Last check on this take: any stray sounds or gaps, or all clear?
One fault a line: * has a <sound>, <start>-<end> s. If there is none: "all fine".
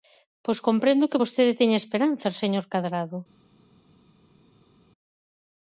all fine